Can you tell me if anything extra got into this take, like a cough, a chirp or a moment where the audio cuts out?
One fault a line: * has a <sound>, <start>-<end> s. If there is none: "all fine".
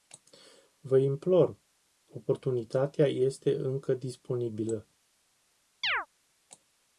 * has a chirp, 5.8-6.1 s